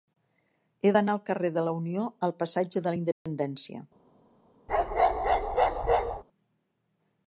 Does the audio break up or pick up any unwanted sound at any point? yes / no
yes